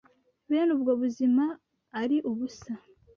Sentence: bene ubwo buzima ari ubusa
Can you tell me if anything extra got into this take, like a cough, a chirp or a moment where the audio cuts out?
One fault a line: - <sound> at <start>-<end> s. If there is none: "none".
none